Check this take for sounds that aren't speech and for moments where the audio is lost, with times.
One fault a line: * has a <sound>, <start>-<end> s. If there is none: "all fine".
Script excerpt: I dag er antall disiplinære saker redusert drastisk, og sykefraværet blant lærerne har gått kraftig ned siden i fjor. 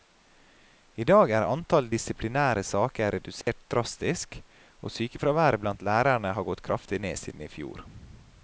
* has a dropout, 3.4-3.5 s